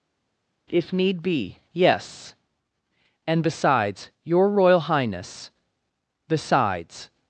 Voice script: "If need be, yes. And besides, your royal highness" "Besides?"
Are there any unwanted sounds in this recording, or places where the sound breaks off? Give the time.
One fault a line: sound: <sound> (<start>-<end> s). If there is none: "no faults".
no faults